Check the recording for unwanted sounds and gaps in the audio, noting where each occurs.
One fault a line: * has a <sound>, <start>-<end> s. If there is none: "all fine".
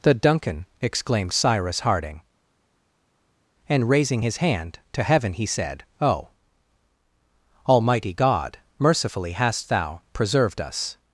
all fine